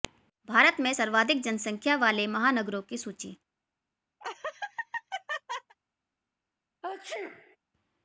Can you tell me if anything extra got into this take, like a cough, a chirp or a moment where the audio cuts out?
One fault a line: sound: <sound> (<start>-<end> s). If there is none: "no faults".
sound: laugh (4.2-5.8 s)
sound: sneeze (6.8-7.6 s)